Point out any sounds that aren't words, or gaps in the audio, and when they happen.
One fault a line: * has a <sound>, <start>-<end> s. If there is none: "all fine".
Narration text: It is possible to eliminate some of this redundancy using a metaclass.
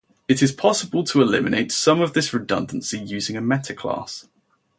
all fine